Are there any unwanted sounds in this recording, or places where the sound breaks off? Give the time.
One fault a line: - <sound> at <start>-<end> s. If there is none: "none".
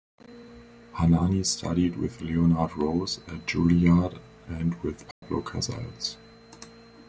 - dropout at 5.1-5.2 s